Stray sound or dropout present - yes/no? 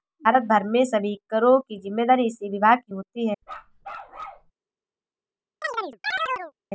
yes